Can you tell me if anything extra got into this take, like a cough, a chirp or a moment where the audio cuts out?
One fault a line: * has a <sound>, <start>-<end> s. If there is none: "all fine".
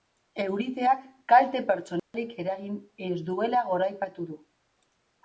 * has a dropout, 2.0-2.1 s